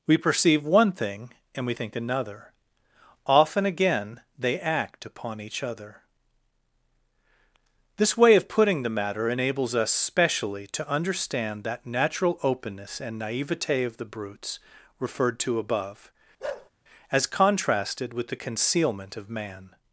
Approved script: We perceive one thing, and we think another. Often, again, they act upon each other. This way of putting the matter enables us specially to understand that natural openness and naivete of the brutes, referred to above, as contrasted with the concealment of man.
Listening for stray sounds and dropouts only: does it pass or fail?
fail